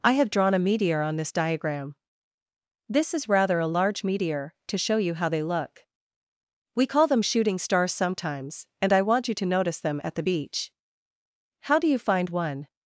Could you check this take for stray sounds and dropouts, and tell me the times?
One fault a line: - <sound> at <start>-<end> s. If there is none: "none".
none